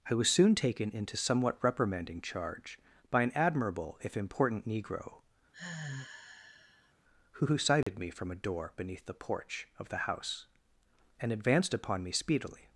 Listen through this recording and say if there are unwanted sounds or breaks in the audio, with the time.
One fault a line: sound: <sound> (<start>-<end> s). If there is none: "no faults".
sound: sigh (5.5-6.9 s)
sound: dropout (7.8-7.9 s)